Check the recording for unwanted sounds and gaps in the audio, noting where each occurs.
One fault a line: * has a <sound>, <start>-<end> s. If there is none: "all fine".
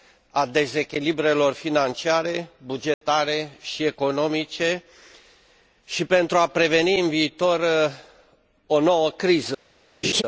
* has a dropout, 2.9-3.0 s
* has a laugh, 10.0-10.2 s